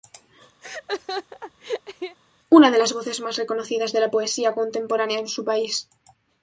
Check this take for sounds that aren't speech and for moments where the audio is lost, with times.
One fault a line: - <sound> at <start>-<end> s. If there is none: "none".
- laugh at 0.6-2.2 s